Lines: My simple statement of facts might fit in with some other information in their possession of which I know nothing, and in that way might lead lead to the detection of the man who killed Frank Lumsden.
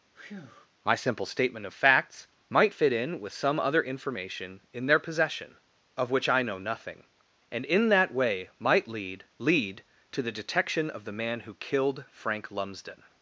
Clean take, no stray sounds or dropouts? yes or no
no